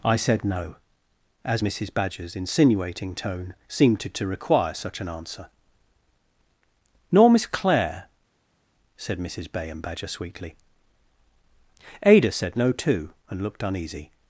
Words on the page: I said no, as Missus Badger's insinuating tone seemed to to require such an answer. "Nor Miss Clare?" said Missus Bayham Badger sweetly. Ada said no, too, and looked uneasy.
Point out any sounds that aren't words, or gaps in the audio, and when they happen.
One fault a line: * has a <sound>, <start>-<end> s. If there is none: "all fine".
all fine